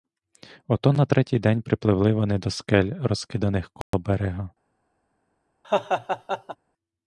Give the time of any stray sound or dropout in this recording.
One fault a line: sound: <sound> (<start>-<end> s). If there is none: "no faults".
sound: dropout (3.8-3.9 s)
sound: laugh (5.6-6.6 s)